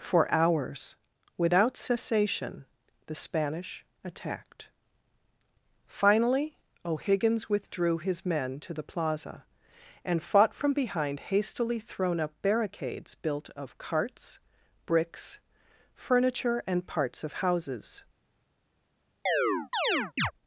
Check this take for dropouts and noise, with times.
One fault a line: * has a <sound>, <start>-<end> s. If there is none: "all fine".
* has a chirp, 19.3-20.3 s